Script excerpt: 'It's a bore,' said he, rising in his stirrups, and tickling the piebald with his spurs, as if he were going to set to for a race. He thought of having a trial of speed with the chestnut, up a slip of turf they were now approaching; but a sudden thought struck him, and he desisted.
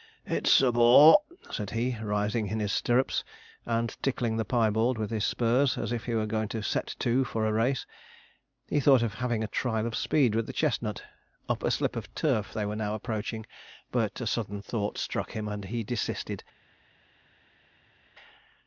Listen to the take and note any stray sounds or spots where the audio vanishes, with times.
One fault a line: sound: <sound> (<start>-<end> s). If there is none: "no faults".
no faults